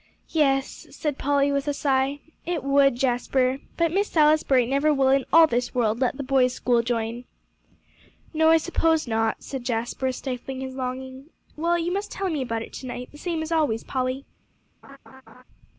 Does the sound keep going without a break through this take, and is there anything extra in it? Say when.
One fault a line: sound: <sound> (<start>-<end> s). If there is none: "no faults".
sound: laugh (14.8-15.4 s)